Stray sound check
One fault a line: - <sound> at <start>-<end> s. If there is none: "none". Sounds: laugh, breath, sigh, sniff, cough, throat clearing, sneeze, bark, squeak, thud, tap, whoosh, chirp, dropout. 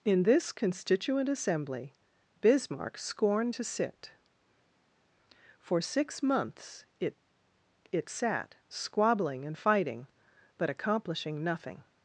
none